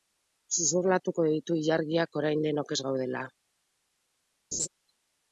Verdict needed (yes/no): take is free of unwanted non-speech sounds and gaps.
no